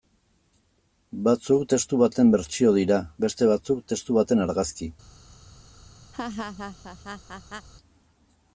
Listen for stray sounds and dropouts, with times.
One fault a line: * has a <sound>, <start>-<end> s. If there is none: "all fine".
* has a laugh, 6.1-7.7 s